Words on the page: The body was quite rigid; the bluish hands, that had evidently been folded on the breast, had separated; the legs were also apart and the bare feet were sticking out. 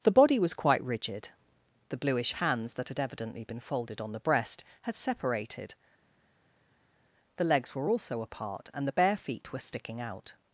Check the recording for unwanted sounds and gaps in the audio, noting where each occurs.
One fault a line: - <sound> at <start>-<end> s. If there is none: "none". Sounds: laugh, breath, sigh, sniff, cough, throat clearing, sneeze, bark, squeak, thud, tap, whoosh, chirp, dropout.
none